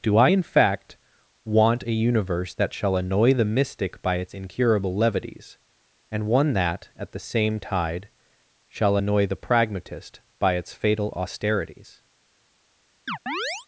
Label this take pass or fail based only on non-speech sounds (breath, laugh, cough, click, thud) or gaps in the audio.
fail